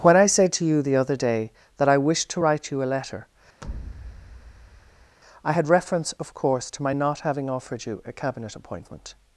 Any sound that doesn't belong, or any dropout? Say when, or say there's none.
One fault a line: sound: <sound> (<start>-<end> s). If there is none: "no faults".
sound: thud (3.6-5.2 s)